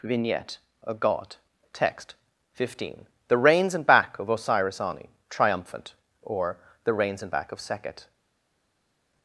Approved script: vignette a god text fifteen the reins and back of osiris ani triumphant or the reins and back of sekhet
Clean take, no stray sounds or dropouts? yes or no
yes